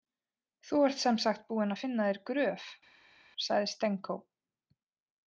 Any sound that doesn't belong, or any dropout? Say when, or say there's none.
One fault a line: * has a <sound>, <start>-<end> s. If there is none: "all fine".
all fine